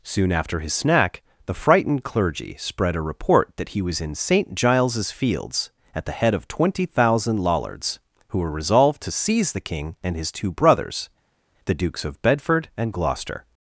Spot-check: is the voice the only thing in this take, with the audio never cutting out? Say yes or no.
yes